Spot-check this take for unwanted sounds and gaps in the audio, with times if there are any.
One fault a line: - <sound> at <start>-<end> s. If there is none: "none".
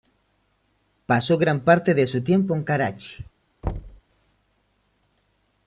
- thud at 3.6-4.0 s